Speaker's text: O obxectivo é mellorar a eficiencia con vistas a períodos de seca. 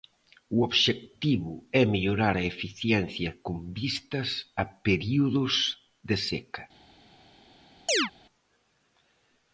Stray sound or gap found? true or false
true